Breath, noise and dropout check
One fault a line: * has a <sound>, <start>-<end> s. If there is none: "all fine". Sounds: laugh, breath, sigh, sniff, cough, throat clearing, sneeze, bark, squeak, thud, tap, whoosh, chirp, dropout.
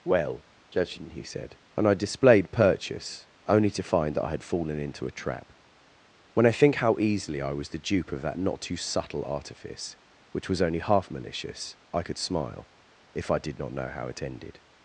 all fine